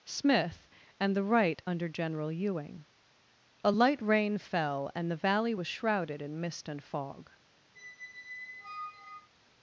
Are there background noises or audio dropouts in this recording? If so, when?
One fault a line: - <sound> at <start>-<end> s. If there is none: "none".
- squeak at 7.7-9.3 s